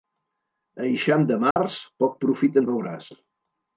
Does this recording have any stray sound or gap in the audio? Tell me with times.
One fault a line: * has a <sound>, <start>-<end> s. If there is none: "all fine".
* has a dropout, 1.5-1.6 s